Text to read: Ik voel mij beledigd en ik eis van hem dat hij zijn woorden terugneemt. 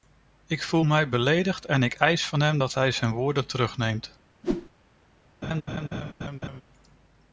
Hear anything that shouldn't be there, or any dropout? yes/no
yes